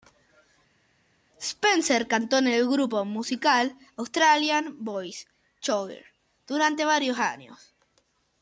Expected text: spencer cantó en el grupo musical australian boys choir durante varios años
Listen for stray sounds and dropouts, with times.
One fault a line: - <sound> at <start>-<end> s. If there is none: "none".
none